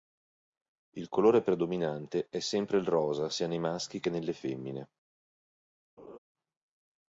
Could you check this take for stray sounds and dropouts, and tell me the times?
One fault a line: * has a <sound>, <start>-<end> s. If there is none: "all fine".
* has a laugh, 6.0-6.2 s